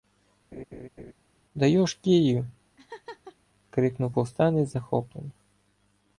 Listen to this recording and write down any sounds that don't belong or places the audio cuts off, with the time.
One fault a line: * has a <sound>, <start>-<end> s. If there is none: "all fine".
* has a laugh, 0.5-1.1 s
* has a laugh, 2.8-3.4 s